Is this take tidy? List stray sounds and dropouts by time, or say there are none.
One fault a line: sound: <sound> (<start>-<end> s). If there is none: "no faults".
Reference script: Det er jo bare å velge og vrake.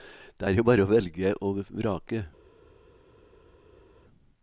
no faults